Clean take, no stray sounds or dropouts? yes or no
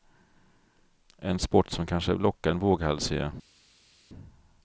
yes